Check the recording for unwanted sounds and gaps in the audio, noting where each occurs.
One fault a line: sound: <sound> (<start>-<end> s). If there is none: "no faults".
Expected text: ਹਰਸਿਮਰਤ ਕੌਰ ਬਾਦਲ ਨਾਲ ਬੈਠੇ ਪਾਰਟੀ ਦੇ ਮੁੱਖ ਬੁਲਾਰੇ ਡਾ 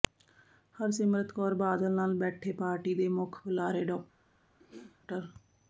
sound: throat clearing (4.6-5.0 s)